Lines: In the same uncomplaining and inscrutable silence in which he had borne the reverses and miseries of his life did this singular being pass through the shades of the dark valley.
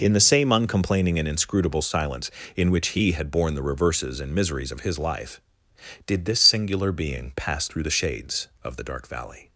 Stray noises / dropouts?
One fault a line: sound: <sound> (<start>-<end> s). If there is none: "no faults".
no faults